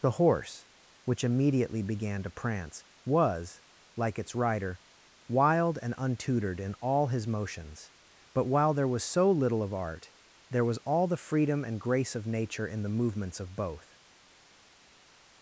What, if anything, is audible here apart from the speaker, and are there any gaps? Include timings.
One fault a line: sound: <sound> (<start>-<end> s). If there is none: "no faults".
no faults